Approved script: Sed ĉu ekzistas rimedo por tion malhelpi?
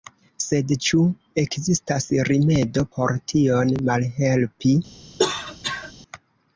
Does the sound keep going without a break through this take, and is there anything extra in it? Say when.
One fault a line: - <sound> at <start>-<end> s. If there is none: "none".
- cough at 5.2-5.9 s